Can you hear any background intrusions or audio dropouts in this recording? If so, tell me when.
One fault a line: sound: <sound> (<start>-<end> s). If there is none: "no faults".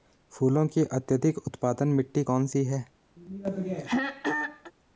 sound: throat clearing (3.2-4.7 s)